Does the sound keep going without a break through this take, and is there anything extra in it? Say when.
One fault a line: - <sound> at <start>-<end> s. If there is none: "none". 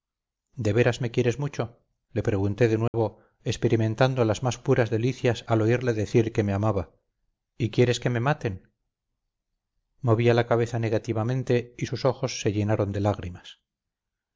- dropout at 2.9-2.9 s